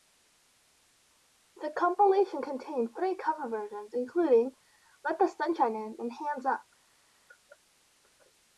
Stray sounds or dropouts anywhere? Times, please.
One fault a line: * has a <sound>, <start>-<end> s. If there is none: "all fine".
all fine